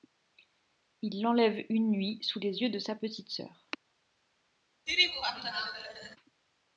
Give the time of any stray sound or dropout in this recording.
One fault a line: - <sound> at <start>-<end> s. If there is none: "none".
- laugh at 4.9-6.2 s